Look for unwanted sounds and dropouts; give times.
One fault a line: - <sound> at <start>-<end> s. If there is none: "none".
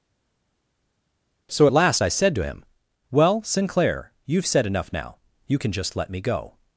none